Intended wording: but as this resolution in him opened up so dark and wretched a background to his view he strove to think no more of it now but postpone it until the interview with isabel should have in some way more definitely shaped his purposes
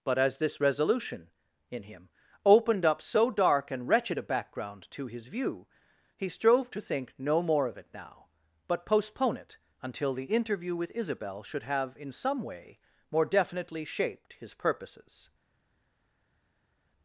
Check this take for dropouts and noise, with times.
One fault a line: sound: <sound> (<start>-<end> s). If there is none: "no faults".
no faults